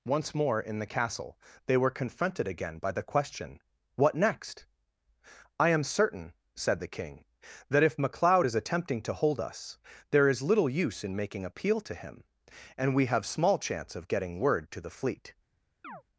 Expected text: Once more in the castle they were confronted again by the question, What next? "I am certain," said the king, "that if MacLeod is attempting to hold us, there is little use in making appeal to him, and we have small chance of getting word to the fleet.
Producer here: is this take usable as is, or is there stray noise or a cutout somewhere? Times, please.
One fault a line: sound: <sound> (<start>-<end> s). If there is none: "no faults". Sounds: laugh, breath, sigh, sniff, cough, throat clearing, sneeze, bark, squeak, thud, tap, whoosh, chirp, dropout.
sound: chirp (15.8-16.0 s)